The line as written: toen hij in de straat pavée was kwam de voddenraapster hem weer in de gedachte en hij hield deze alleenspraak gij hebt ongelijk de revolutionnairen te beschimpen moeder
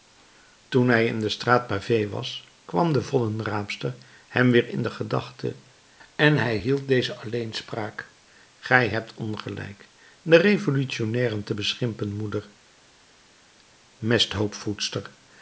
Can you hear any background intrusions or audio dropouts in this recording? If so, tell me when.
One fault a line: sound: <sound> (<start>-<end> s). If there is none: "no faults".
no faults